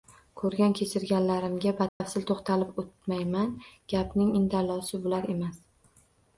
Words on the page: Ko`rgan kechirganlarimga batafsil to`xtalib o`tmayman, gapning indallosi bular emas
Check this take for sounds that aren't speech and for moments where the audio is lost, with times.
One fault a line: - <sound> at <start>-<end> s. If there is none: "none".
- dropout at 1.9-2.0 s